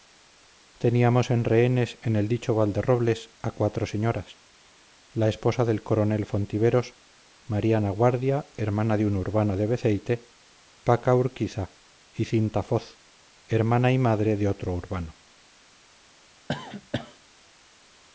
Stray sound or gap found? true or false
true